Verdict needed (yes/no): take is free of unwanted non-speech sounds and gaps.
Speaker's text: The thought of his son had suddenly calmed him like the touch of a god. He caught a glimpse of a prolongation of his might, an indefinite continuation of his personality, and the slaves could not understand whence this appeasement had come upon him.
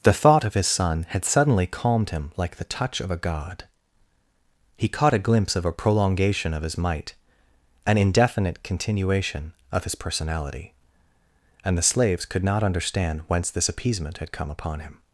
yes